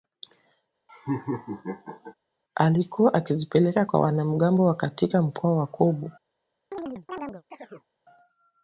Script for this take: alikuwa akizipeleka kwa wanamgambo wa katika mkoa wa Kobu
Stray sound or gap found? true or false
true